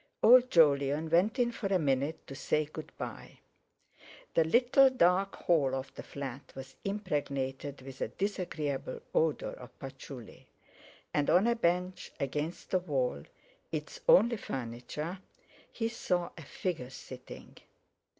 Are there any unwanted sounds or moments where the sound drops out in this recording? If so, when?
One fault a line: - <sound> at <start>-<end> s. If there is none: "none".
none